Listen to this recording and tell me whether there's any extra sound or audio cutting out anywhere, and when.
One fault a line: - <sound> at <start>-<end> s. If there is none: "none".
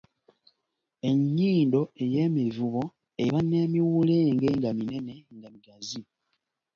none